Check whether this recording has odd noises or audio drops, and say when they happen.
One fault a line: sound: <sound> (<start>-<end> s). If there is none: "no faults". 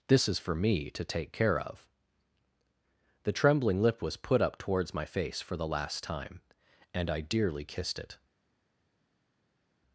no faults